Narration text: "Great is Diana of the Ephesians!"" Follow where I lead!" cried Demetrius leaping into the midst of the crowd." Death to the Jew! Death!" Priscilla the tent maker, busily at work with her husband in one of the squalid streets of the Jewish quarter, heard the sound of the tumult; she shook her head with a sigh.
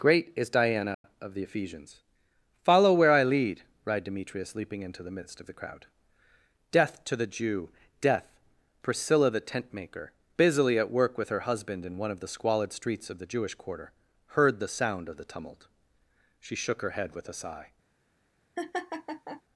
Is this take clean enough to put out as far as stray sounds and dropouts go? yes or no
no